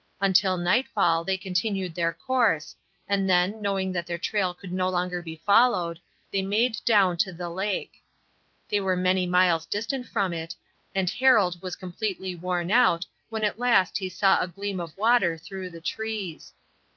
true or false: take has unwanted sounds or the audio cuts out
false